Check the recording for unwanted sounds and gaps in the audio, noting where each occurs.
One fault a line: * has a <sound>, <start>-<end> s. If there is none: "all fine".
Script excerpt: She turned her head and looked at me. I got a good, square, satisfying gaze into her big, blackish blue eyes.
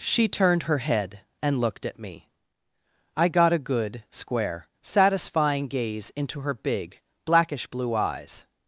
all fine